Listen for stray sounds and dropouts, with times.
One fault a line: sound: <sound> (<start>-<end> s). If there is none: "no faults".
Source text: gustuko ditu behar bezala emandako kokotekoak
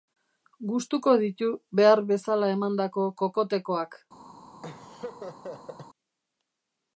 sound: laugh (4.6-5.9 s)